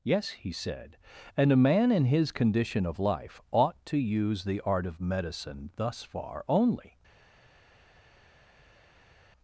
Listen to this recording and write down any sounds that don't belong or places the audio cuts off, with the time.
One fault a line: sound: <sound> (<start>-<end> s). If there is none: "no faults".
no faults